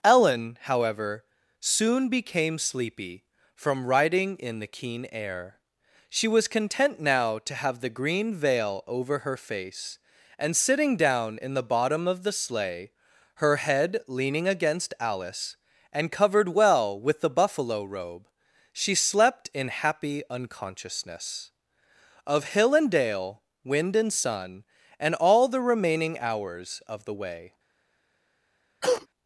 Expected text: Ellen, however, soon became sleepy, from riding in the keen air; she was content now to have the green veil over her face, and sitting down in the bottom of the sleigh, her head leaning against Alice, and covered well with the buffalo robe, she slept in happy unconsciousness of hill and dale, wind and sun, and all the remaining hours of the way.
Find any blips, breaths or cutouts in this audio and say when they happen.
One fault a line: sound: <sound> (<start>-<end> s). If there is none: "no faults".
sound: cough (28.8-29.1 s)